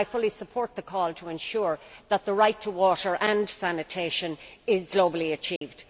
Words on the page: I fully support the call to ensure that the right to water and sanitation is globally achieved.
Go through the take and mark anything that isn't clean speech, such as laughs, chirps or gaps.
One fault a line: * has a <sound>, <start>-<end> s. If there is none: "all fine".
* has a dropout, 5.6-5.6 s